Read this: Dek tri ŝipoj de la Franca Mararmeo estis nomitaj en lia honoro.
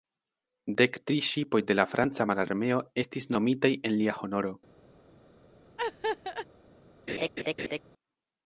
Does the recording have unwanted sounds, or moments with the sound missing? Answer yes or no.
yes